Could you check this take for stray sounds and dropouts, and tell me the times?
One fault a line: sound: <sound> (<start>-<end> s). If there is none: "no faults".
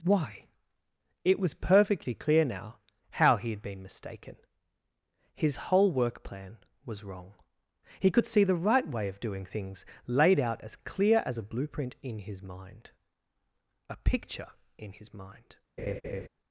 sound: laugh (15.8-16.3 s)